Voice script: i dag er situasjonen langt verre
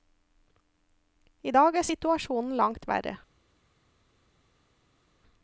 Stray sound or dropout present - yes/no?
no